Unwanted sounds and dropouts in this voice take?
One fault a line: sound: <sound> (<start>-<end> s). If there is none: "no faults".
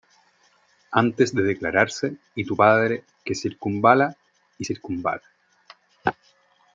no faults